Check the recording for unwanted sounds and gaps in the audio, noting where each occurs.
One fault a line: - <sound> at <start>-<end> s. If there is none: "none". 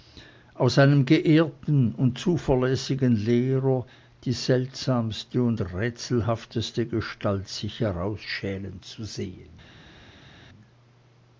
none